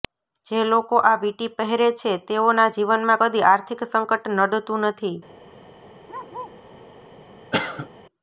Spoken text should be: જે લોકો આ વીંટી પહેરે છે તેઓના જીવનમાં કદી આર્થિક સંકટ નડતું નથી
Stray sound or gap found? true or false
true